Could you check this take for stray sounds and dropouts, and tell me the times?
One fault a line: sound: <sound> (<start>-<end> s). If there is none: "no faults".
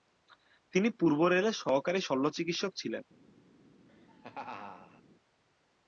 sound: laugh (3.9-5.0 s)